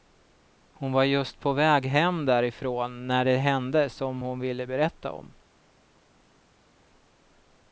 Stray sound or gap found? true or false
false